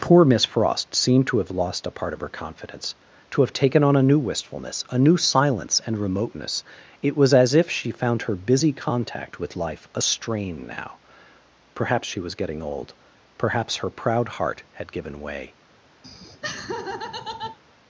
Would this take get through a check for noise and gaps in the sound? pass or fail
fail